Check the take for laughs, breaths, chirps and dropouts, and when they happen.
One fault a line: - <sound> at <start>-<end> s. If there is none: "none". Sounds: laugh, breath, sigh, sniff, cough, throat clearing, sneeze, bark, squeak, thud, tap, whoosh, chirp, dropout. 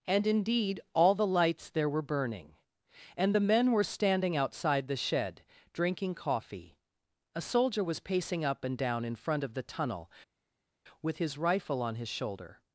none